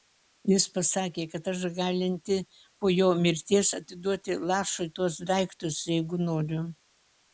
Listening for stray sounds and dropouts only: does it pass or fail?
pass